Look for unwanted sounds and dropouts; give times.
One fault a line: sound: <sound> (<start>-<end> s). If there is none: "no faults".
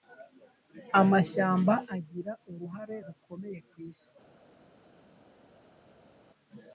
no faults